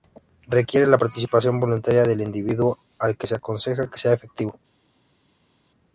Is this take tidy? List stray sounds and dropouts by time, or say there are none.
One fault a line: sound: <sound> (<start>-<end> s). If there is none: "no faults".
no faults